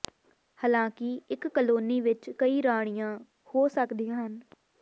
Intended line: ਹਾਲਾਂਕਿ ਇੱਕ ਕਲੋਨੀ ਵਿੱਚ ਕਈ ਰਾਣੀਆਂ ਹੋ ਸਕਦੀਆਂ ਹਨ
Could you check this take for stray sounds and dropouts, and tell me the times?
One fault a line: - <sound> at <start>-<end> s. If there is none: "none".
none